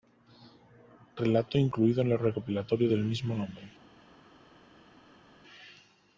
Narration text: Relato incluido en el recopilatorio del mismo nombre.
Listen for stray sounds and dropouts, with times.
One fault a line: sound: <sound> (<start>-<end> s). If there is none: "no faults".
no faults